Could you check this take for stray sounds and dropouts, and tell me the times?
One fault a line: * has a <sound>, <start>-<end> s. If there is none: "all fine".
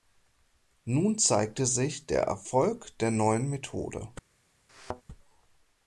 * has a thud, 4.7-5.0 s